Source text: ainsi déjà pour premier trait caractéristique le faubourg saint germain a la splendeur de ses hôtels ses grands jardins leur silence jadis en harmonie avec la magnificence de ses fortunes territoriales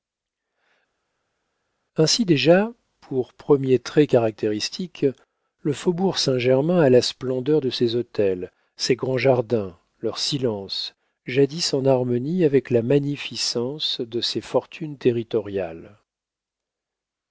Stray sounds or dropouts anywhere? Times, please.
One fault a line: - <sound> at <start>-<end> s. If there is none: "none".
none